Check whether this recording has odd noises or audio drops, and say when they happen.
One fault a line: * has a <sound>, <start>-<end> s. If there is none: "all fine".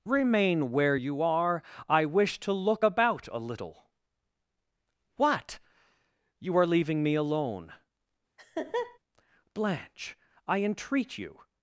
* has a laugh, 8.4-9.0 s